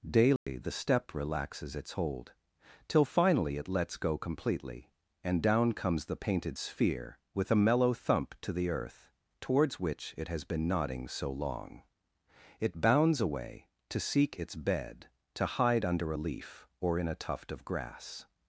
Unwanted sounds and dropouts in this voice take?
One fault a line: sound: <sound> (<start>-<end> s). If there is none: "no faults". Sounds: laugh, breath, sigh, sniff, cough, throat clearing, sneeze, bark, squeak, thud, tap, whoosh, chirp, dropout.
sound: dropout (0.4-0.5 s)